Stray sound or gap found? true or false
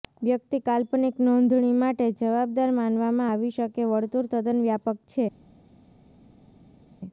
false